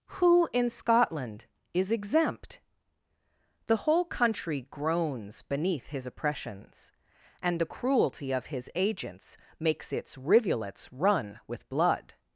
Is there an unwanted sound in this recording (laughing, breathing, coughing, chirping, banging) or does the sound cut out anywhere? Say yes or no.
no